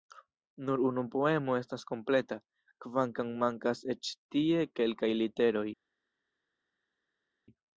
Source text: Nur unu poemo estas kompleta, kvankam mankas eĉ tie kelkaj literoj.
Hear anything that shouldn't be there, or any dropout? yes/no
no